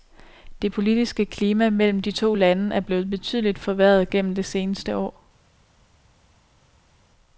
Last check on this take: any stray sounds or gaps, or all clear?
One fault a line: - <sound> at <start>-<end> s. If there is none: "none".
none